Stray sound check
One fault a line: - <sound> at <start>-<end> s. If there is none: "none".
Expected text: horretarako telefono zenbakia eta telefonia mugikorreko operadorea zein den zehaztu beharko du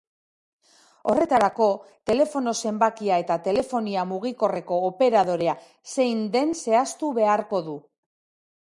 none